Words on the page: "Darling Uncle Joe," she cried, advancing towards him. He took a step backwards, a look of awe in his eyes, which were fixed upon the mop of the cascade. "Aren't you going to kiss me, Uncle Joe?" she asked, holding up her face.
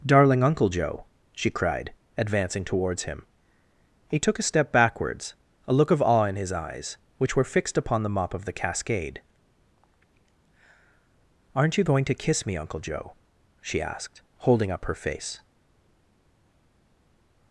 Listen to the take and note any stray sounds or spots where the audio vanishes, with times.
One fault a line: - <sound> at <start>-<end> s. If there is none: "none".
none